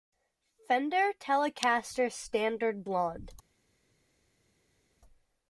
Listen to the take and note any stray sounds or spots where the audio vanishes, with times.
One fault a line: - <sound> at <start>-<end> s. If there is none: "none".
none